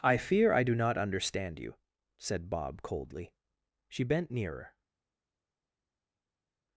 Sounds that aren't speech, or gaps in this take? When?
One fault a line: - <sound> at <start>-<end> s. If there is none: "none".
none